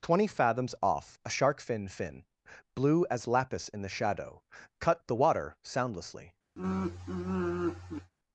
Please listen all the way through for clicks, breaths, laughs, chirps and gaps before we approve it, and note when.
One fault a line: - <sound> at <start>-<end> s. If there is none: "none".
- sigh at 6.6-8.1 s